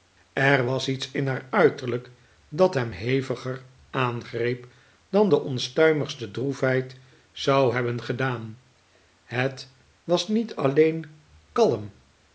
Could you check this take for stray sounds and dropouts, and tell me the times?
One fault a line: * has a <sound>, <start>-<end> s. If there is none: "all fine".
all fine